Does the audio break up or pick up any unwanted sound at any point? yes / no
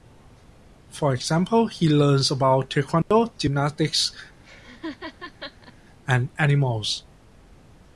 yes